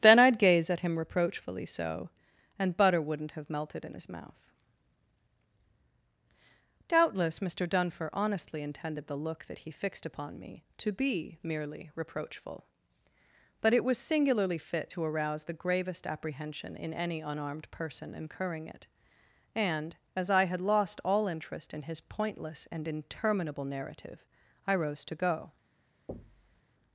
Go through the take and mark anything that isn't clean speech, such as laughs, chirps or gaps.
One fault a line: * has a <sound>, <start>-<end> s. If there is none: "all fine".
* has a thud, 26.1-26.6 s